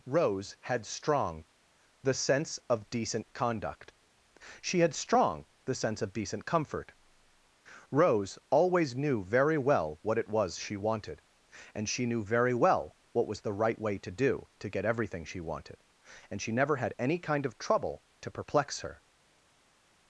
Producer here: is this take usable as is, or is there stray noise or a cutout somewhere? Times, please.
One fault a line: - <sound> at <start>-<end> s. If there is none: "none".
none